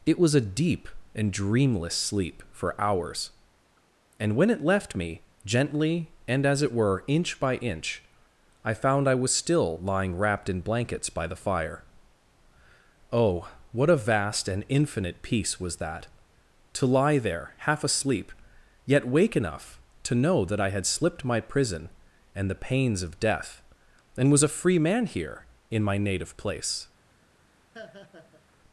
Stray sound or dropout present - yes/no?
yes